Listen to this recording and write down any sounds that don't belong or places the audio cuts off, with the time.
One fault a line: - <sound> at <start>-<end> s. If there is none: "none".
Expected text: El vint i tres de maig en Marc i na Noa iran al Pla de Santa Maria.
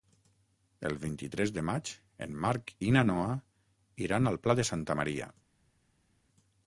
none